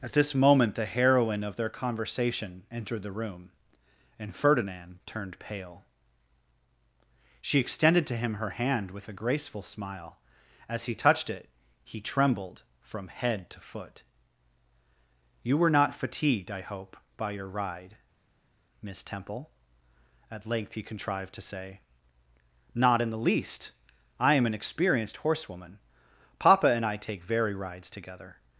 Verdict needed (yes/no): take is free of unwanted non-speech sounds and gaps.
yes